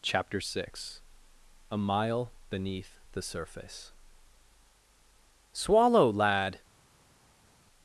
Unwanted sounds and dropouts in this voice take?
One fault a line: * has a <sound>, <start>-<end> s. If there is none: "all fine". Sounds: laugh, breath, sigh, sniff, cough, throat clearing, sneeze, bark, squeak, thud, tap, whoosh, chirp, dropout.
all fine